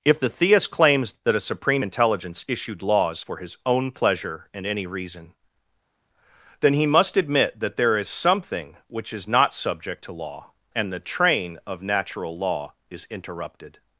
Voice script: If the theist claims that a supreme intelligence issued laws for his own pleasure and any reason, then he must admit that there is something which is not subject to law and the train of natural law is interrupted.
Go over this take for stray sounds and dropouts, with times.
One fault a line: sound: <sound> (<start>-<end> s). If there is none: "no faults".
no faults